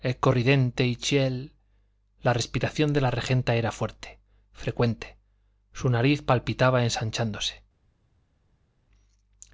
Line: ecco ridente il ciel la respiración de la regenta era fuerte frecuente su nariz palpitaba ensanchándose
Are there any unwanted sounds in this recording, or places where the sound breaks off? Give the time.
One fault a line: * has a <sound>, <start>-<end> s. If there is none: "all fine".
all fine